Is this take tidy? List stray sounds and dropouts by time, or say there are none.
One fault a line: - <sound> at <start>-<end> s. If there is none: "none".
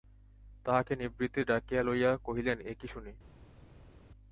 none